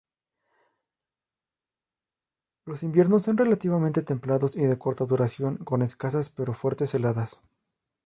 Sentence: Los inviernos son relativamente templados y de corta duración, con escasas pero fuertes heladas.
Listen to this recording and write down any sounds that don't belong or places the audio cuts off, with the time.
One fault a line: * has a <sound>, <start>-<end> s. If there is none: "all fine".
all fine